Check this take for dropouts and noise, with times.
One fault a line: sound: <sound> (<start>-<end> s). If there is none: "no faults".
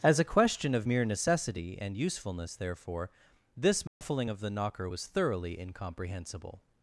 sound: dropout (3.9-4.0 s)